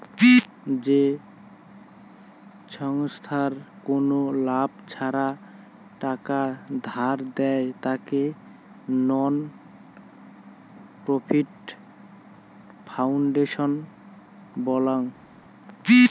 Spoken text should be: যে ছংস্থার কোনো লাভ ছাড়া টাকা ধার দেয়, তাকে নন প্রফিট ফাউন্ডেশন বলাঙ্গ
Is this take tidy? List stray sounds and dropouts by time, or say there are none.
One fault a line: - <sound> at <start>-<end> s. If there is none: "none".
none